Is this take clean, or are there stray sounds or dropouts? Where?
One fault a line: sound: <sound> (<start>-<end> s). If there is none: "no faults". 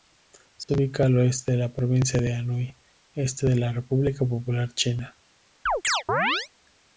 sound: dropout (0.6-0.7 s)
sound: chirp (5.7-6.5 s)